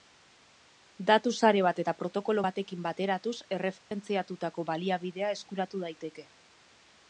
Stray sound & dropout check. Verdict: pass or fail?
fail